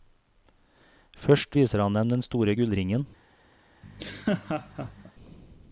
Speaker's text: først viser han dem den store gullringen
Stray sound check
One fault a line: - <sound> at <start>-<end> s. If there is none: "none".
- laugh at 3.8-5.1 s